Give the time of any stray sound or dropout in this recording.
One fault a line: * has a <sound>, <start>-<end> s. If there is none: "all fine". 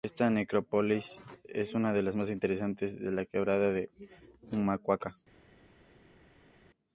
all fine